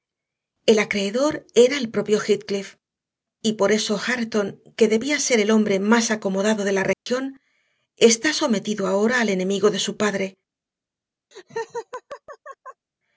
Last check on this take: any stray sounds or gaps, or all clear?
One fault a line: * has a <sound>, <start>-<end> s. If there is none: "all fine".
* has a dropout, 6.9-7.1 s
* has a laugh, 11.3-12.9 s